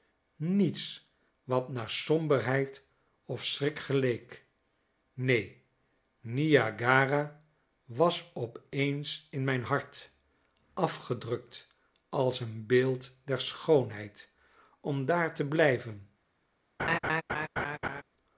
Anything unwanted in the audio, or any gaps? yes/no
yes